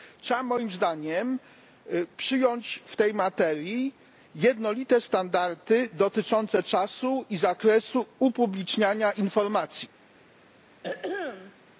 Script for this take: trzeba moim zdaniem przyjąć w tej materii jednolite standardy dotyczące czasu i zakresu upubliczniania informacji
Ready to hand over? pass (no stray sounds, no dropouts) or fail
fail